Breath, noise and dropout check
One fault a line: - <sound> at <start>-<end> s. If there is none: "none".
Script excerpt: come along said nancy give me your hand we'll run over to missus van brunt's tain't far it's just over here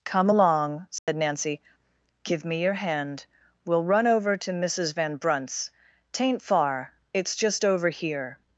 - dropout at 1.0-1.1 s